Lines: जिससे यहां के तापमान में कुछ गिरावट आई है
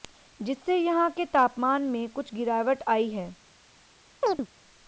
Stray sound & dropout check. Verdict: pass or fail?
fail